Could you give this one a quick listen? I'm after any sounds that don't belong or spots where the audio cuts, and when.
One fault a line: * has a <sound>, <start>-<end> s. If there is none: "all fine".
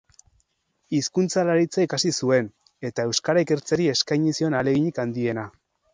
all fine